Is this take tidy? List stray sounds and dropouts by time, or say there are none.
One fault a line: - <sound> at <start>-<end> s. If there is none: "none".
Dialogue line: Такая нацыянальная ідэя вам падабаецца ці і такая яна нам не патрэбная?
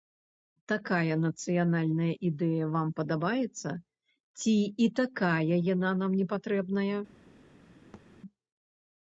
- thud at 7.9-8.1 s